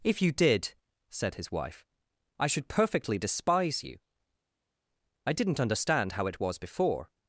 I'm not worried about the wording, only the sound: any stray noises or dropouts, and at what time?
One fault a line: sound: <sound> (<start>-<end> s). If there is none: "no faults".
no faults